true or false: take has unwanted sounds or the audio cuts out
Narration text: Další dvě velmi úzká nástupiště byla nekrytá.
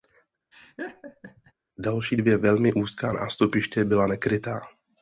true